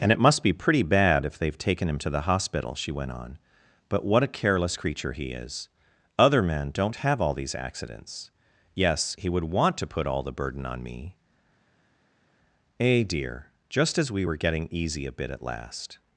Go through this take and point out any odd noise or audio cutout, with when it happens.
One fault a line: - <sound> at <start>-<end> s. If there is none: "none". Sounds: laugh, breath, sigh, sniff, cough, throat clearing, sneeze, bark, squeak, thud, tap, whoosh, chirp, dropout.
none